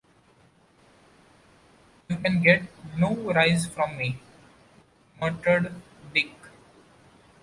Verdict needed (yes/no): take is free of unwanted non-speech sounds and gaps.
yes